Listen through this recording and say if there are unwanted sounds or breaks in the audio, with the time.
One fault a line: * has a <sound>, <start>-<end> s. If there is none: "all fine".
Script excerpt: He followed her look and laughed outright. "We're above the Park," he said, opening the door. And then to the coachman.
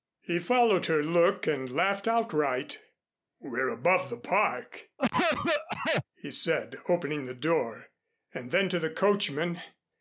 * has a cough, 5.0-6.0 s